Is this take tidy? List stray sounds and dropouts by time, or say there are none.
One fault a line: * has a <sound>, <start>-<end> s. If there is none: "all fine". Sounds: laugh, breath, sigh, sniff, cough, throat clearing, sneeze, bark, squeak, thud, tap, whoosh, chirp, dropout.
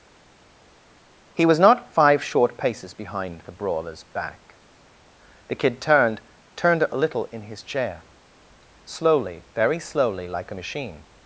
all fine